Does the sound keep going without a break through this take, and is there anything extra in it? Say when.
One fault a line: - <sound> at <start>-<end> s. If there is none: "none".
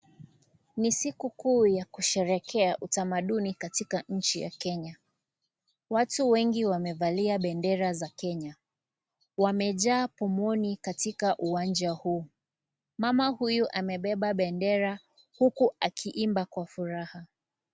none